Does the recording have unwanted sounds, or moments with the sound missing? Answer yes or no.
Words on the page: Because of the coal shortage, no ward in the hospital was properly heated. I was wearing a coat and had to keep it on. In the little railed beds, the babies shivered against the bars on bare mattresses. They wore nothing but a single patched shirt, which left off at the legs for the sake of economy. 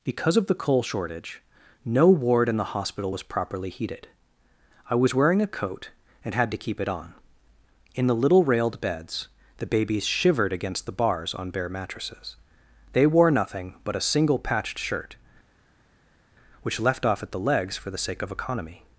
no